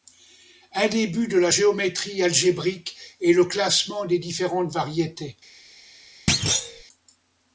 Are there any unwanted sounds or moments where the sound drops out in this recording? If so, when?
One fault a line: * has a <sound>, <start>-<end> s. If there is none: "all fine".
* has a thud, 6.3-6.8 s